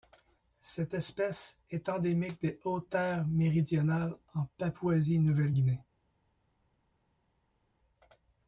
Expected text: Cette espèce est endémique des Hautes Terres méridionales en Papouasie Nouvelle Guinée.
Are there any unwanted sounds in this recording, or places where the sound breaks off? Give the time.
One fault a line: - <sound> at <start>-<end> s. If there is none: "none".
none